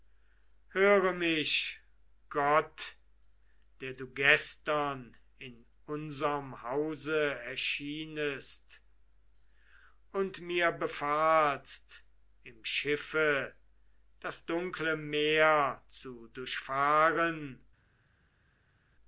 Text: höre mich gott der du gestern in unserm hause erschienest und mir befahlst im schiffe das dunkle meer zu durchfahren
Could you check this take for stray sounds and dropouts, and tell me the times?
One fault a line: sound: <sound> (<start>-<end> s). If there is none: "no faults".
no faults